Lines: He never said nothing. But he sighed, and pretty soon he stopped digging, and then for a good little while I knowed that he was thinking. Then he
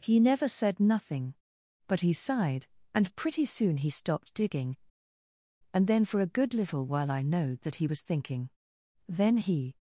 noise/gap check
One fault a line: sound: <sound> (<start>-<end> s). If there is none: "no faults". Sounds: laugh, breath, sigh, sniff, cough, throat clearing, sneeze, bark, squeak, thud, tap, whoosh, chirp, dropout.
no faults